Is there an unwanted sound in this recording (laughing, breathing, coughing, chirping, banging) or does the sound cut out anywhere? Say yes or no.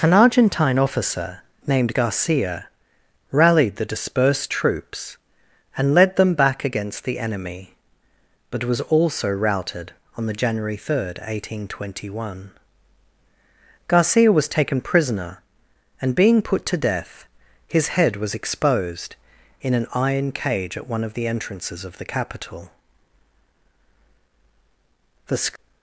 no